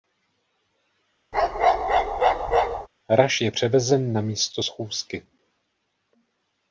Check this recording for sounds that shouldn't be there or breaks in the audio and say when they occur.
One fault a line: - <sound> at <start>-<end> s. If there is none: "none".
- bark at 1.3-2.9 s